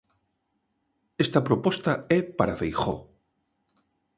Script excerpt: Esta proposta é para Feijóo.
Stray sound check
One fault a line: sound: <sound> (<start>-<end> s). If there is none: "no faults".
no faults